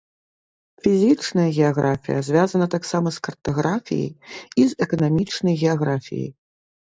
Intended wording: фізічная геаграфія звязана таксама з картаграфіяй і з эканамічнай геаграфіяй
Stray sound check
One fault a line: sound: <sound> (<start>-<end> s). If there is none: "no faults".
no faults